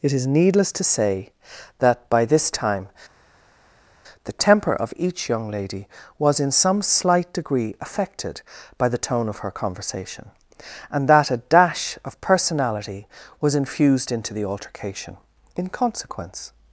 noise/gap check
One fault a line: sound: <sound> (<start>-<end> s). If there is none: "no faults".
no faults